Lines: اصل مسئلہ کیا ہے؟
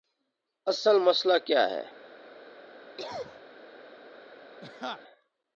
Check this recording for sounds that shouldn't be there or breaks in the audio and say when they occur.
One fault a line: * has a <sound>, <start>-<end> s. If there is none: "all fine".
* has a cough, 3.0-3.4 s
* has a laugh, 4.6-5.0 s